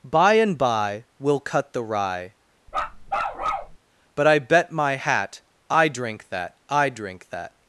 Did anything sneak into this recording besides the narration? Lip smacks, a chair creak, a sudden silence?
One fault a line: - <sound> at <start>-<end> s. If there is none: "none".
- bark at 2.7-3.8 s